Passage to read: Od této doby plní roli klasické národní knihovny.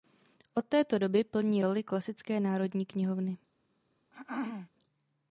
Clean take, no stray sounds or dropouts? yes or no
no